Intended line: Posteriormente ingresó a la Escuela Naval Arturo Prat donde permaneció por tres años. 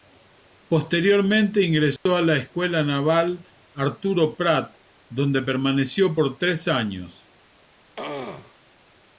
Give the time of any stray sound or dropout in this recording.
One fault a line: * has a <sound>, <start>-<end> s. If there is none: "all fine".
* has a dropout, 2.0-2.1 s
* has a throat clearing, 8.0-8.6 s